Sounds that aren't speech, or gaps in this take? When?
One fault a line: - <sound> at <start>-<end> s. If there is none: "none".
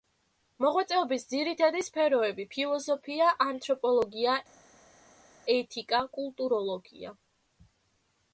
none